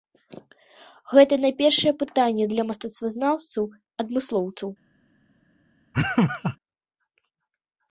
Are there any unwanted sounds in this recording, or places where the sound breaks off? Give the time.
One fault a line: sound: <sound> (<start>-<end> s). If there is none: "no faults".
sound: laugh (5.9-6.6 s)